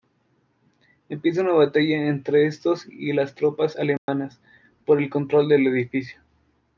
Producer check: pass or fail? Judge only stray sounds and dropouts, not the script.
fail